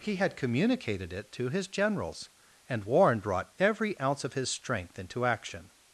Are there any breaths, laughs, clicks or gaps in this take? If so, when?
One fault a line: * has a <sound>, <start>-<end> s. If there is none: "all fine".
all fine